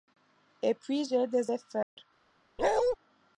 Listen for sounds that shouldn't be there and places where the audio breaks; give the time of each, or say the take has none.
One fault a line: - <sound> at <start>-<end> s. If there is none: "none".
- dropout at 1.8-2.0 s
- bark at 2.6-3.0 s